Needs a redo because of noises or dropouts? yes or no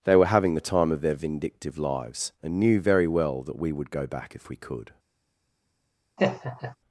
yes